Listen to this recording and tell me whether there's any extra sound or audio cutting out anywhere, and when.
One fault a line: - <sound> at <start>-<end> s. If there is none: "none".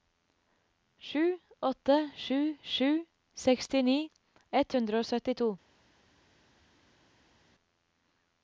none